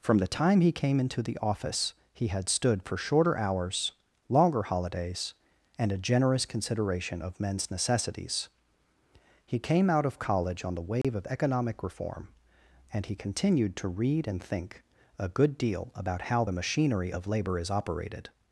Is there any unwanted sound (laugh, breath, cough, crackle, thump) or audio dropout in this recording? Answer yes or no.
yes